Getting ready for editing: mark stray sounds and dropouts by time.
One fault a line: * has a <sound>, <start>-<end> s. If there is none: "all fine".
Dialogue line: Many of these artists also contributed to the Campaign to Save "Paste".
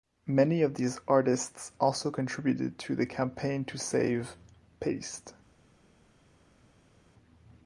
all fine